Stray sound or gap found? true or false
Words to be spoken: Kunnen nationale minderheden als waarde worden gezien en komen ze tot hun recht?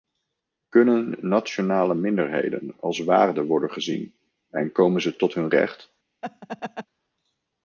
true